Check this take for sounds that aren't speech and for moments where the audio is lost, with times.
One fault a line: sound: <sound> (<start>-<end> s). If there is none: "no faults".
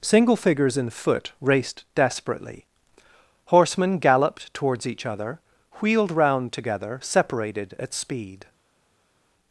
no faults